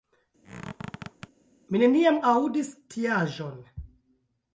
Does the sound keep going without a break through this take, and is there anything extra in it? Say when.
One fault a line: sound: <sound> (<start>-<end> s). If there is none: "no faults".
sound: squeak (0.4-1.3 s)